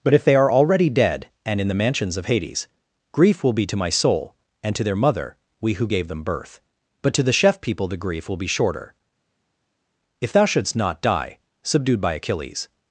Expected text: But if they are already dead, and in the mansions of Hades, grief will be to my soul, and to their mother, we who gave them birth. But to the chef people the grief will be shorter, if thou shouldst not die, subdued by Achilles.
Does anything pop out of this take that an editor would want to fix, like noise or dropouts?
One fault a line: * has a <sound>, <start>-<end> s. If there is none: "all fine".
all fine